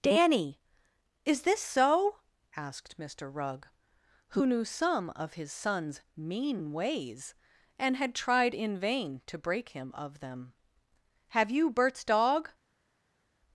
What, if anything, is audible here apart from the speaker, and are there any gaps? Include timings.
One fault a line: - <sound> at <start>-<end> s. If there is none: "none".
none